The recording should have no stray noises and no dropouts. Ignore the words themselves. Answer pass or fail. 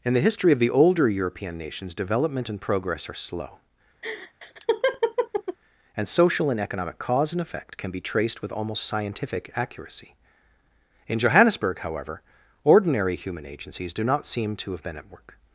fail